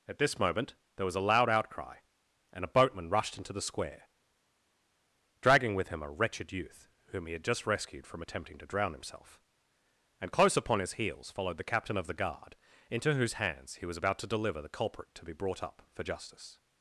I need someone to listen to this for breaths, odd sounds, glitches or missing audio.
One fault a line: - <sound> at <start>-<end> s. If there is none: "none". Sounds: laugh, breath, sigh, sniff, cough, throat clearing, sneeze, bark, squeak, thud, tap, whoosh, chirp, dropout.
none